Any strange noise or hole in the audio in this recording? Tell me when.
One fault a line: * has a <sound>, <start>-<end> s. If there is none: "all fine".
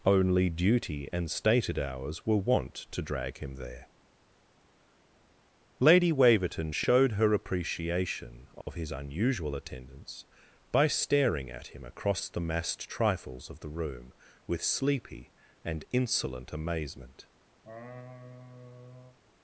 * has a dropout, 8.6-8.7 s
* has a laugh, 17.6-19.2 s